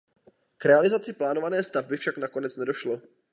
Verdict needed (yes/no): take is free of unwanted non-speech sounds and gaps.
yes